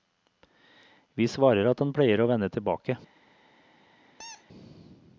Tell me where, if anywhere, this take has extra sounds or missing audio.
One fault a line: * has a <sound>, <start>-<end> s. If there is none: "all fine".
* has a squeak, 4.2-4.5 s